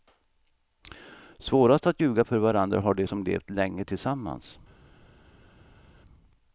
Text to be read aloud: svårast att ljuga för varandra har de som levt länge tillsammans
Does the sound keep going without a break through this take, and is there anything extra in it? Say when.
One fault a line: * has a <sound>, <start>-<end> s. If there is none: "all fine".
all fine